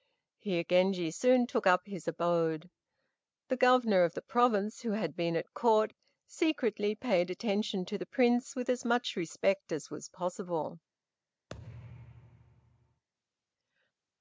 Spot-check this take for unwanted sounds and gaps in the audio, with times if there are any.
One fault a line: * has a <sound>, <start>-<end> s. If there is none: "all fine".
* has a thud, 11.5-13.0 s